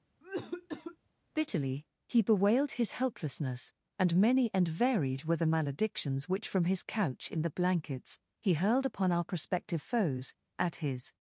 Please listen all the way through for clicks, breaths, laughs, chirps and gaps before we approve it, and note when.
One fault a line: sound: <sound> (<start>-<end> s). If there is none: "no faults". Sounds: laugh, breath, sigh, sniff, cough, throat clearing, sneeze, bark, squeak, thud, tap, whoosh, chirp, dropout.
sound: cough (0.2-1.0 s)